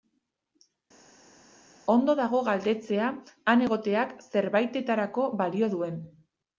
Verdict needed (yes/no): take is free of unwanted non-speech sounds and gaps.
yes